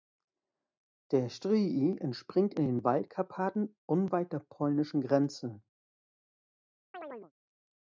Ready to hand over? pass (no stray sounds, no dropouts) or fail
fail